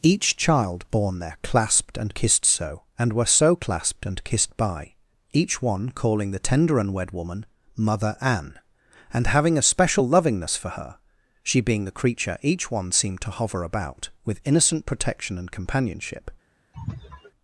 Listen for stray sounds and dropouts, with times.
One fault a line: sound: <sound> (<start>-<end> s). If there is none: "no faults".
sound: sneeze (16.7-17.3 s)